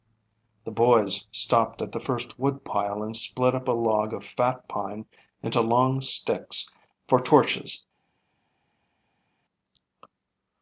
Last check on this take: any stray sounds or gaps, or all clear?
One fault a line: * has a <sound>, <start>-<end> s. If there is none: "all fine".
all fine